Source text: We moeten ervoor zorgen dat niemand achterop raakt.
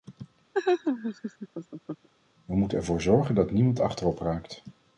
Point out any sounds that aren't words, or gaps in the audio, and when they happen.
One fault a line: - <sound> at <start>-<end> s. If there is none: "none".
- laugh at 0.5-2.1 s